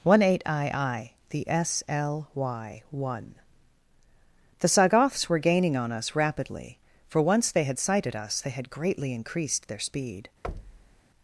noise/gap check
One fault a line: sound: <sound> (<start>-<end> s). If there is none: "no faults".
sound: thud (10.4-11.0 s)